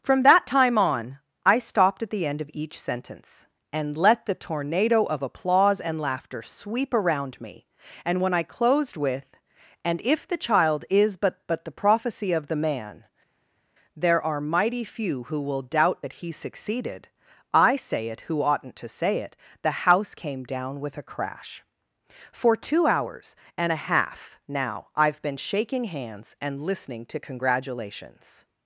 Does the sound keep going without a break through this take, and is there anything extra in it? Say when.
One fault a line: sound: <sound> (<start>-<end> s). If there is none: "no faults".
no faults